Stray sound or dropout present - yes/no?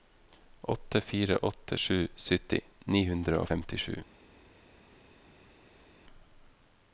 no